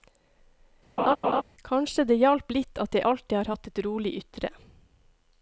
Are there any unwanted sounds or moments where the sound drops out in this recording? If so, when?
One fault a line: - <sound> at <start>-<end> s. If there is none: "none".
- laugh at 1.0-1.4 s